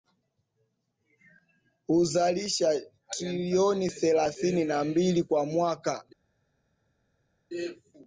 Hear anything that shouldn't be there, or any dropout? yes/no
no